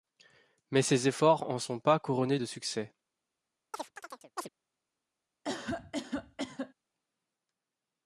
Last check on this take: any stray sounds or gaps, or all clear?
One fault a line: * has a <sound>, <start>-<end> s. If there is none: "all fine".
* has a chirp, 3.7-4.5 s
* has a cough, 5.4-6.7 s